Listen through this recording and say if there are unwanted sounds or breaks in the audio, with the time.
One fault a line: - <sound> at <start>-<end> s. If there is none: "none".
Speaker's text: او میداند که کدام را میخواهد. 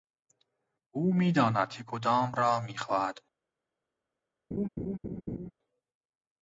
- laugh at 4.5-5.5 s